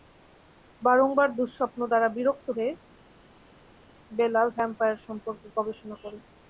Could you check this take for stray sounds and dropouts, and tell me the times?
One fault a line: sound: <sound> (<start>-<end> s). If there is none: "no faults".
no faults